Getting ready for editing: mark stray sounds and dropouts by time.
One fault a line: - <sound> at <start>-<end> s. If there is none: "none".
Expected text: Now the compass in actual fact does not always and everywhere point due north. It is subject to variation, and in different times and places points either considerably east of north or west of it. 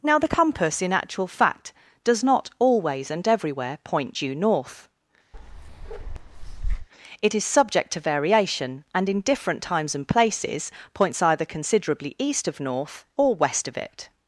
- bark at 5.3-6.9 s